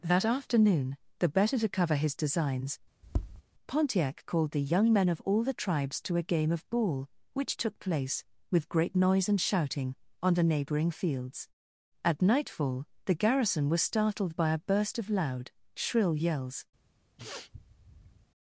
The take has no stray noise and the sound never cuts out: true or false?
false